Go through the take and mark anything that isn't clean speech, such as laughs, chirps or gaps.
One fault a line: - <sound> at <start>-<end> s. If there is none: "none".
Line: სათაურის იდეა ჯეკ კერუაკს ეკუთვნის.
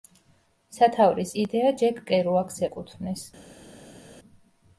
none